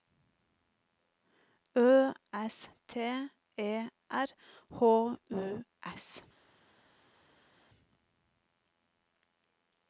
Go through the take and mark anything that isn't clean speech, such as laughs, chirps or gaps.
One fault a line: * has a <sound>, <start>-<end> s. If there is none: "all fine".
all fine